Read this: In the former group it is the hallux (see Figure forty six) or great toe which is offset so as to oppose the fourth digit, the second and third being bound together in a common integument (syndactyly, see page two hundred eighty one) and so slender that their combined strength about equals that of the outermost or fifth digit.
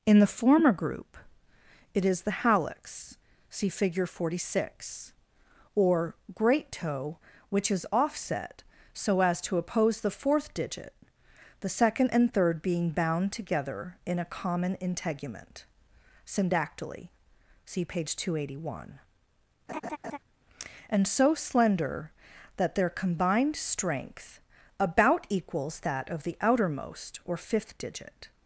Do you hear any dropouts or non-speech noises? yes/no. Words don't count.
yes